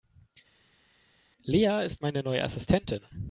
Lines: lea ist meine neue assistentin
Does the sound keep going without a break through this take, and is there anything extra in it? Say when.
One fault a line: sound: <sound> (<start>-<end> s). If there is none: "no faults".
no faults